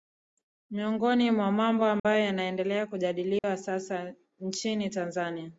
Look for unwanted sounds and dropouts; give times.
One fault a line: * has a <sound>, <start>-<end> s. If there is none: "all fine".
* has a dropout, 2.0-2.0 s
* has a dropout, 3.4-3.4 s